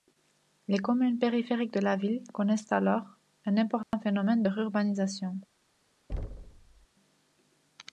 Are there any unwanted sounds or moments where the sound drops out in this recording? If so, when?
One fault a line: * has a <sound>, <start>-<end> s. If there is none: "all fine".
* has a dropout, 3.8-3.9 s
* has a thud, 6.1-6.9 s